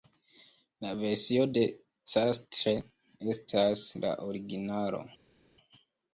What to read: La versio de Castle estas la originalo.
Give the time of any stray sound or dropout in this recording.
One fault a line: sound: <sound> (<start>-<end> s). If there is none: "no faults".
no faults